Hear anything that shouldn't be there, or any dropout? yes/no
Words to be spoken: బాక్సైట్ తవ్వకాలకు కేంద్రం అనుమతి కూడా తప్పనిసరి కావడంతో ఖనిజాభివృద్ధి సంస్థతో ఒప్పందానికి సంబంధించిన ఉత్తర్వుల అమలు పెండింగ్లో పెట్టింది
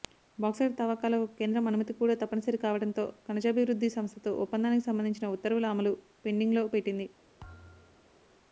yes